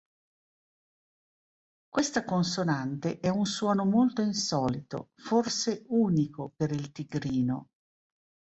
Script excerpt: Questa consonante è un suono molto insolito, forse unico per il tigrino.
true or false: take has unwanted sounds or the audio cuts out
false